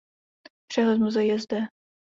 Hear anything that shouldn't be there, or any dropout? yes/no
no